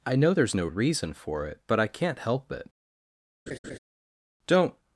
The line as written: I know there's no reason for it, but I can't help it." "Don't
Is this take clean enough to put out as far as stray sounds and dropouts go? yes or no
no